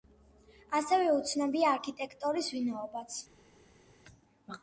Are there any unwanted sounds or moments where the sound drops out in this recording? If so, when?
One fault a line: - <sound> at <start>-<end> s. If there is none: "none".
none